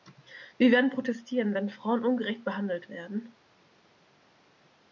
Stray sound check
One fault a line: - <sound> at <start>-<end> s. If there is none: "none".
none